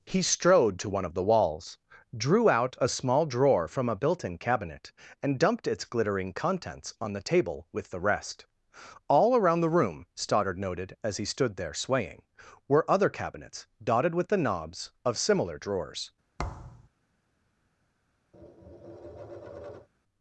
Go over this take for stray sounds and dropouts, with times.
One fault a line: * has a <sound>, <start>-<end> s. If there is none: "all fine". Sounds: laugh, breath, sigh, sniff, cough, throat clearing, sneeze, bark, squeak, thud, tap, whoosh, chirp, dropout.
* has a thud, 16.4-16.9 s
* has a tap, 18.3-19.9 s